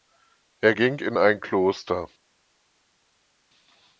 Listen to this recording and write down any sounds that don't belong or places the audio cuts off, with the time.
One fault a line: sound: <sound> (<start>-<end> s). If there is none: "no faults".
no faults